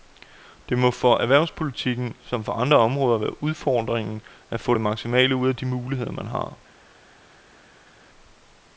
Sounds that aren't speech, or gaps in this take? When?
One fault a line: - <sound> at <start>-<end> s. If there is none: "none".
none